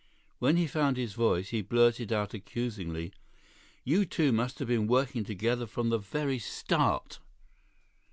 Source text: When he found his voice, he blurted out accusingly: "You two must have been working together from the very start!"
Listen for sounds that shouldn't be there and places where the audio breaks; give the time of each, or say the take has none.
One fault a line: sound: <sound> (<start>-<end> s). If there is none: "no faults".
no faults